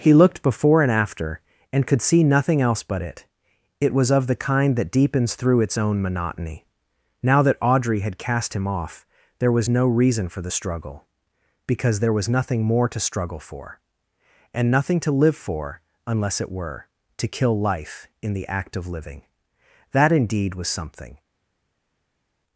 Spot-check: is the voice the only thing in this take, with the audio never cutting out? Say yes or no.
yes